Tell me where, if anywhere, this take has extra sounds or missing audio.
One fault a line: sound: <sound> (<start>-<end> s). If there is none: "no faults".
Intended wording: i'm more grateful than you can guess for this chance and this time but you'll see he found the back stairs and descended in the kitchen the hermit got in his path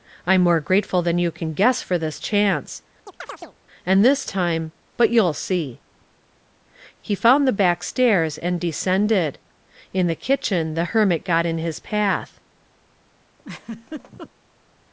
sound: chirp (3.1-3.6 s)
sound: laugh (13.4-14.3 s)